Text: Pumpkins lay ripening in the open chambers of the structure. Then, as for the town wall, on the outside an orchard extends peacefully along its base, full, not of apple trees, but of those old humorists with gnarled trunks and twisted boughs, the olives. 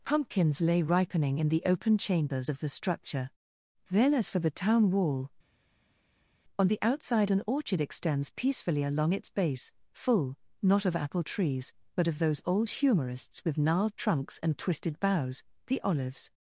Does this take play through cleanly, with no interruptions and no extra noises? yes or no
yes